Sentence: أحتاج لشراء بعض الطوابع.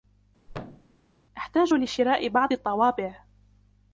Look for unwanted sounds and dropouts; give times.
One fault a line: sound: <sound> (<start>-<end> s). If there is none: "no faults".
sound: thud (0.5-1.0 s)